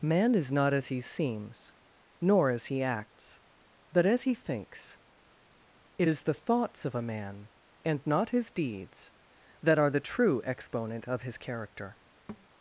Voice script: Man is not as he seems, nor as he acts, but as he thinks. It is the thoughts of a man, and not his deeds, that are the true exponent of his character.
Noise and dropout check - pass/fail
fail